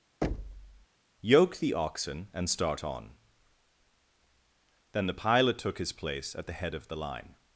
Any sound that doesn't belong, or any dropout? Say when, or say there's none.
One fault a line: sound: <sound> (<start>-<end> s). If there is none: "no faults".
sound: thud (0.2-0.9 s)